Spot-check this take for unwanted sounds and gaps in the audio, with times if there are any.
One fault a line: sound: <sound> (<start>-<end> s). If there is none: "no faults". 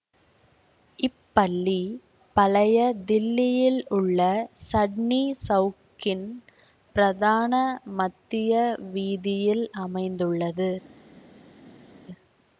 no faults